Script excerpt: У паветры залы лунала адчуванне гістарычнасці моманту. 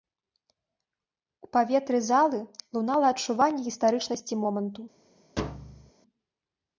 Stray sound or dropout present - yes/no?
yes